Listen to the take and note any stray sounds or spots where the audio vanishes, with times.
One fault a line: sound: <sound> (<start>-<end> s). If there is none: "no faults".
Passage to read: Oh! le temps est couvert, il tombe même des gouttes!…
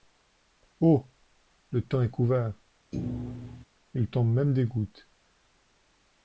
sound: thud (2.9-3.6 s)